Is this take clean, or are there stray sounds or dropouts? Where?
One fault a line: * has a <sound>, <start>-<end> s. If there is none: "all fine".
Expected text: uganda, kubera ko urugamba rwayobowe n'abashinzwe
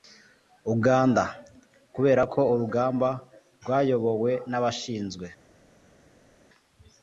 all fine